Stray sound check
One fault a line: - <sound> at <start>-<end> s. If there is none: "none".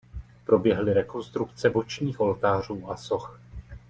none